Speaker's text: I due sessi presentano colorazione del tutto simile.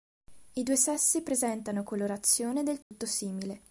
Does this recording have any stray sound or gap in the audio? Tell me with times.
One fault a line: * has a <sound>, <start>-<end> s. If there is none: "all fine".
* has a dropout, 2.8-2.9 s